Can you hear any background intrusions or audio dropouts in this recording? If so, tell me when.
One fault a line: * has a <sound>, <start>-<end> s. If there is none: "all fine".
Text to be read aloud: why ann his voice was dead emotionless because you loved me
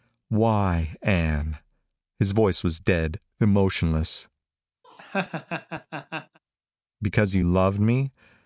* has a laugh, 4.8-6.4 s